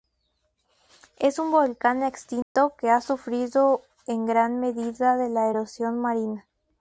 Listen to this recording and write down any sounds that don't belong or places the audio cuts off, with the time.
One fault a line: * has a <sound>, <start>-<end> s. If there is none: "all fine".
* has a dropout, 2.4-2.6 s